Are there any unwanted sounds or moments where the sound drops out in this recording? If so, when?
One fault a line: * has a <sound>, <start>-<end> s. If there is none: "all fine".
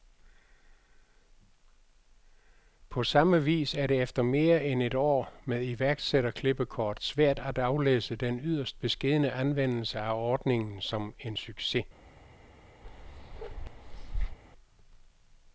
* has a bark, 12.8-14.4 s